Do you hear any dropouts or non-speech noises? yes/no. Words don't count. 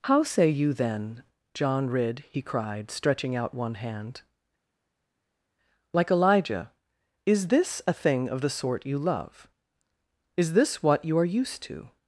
no